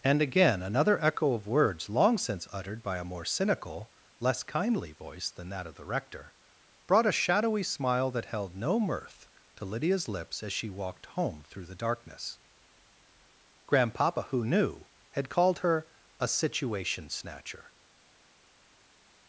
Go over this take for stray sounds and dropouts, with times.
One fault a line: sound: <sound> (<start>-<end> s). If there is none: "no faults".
no faults